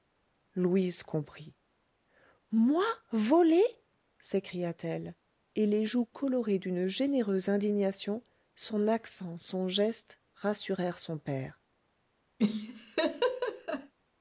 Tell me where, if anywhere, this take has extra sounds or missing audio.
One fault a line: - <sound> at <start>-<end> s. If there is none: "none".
- laugh at 12.4-13.9 s